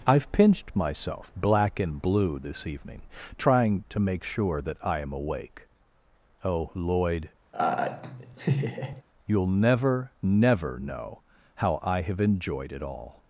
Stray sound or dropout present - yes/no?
yes